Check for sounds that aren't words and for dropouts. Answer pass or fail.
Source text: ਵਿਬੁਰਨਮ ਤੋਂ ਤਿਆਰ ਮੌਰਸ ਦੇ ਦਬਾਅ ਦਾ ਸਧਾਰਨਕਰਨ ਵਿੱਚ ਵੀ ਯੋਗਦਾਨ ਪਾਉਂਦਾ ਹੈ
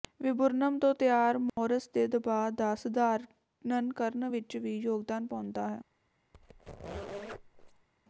fail